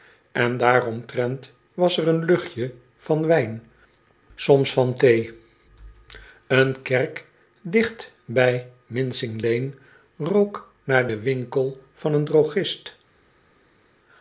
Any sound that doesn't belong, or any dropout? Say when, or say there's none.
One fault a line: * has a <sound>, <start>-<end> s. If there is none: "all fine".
all fine